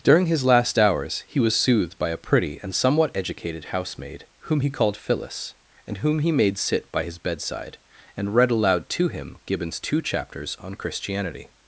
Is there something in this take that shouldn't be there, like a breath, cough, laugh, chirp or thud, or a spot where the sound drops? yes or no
no